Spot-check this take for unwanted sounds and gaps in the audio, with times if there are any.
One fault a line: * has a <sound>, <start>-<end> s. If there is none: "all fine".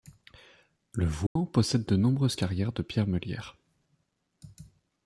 * has a dropout, 1.3-1.4 s